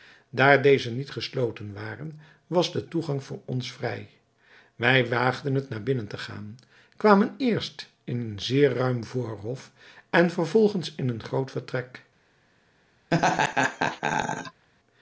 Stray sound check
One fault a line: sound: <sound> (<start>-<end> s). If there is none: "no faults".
sound: laugh (13.1-14.7 s)